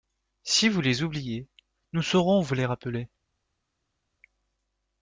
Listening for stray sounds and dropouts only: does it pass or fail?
pass